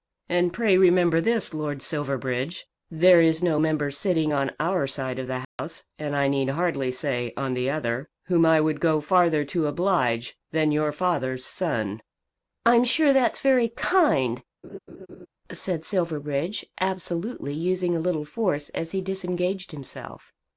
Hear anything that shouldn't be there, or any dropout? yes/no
yes